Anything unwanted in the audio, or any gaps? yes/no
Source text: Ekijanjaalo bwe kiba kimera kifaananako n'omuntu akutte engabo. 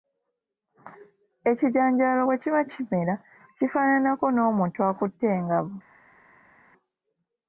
no